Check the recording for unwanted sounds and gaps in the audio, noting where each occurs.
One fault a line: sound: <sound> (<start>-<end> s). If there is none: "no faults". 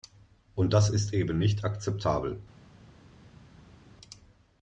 no faults